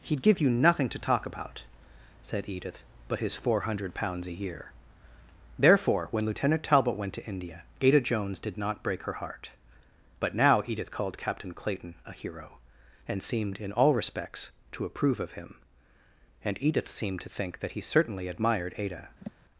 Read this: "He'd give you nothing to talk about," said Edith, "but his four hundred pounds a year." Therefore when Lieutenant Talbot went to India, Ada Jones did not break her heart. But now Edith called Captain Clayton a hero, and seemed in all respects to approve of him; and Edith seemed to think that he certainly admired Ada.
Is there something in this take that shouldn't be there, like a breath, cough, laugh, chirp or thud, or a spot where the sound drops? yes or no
yes